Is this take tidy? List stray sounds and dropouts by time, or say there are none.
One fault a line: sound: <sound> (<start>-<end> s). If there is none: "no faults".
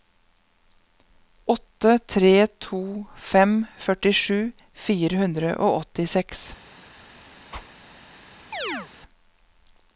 sound: whoosh (7.5-7.7 s)
sound: chirp (8.5-8.9 s)